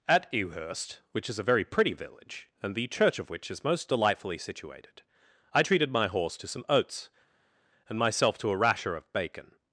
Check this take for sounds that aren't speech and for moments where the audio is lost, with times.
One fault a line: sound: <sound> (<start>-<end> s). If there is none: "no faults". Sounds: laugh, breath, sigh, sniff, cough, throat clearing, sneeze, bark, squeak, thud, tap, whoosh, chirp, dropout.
no faults